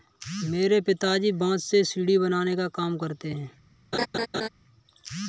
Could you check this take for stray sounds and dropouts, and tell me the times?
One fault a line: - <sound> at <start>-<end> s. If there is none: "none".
- laugh at 3.9-4.5 s